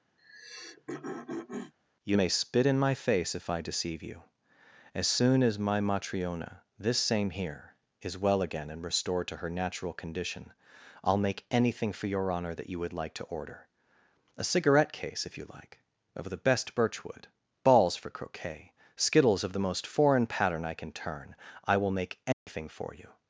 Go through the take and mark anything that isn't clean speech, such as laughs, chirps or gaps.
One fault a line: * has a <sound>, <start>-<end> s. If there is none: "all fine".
* has a throat clearing, 0.2-1.7 s
* has a dropout, 22.3-22.5 s